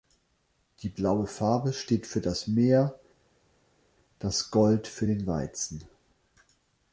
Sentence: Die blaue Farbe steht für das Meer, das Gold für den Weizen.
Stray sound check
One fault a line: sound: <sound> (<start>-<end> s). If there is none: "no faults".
no faults